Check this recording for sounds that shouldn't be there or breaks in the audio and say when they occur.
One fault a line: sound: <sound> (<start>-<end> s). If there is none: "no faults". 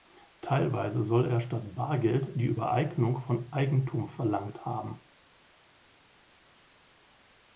no faults